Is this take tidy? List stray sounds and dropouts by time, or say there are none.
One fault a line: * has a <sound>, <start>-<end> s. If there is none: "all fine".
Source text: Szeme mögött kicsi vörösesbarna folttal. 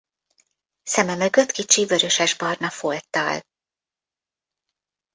all fine